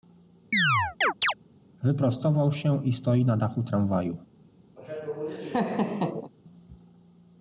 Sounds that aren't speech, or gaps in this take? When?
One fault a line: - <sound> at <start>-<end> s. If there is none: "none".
- chirp at 0.5-1.3 s
- laugh at 4.8-6.3 s